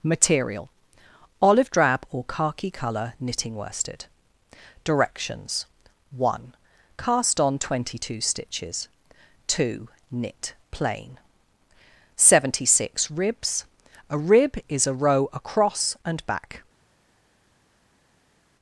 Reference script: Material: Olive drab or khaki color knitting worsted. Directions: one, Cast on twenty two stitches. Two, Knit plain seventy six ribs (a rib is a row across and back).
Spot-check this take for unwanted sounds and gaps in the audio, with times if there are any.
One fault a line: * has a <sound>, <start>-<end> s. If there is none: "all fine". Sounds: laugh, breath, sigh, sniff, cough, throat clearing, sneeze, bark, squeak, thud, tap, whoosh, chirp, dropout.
all fine